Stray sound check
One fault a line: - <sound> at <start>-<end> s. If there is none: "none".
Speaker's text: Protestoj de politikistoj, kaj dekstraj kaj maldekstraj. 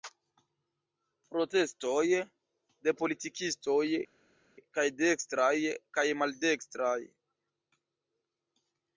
none